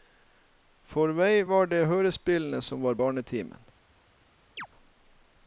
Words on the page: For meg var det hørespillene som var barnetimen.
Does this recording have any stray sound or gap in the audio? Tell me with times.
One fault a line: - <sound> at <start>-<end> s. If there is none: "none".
- chirp at 4.6-4.7 s